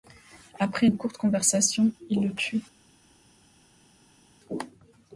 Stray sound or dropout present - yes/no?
no